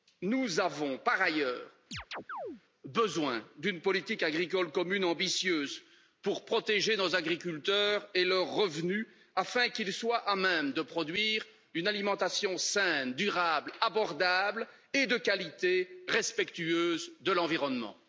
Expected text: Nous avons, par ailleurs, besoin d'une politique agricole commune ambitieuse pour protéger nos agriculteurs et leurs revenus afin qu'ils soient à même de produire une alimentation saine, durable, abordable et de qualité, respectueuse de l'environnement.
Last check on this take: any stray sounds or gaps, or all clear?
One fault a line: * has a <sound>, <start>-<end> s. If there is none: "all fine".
* has a chirp, 1.9-2.6 s